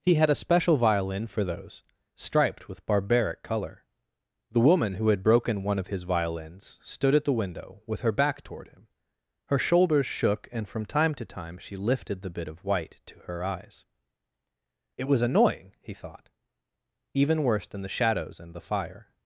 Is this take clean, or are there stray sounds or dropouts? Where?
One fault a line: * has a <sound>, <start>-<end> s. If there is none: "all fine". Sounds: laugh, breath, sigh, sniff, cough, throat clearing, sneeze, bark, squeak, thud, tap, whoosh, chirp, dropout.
all fine